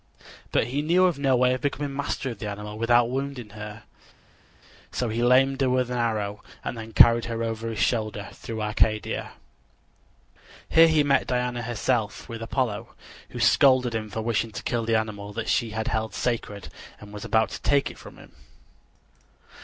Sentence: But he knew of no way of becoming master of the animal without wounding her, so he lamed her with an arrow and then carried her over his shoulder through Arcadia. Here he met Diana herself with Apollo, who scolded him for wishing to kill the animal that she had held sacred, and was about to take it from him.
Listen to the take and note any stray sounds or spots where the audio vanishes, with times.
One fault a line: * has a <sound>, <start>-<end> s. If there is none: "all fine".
all fine